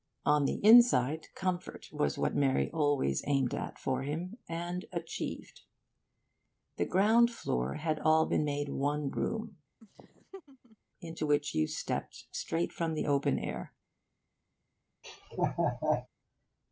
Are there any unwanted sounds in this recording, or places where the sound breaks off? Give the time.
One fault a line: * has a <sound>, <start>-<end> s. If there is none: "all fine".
* has a laugh, 9.8-10.8 s
* has a laugh, 15.0-16.1 s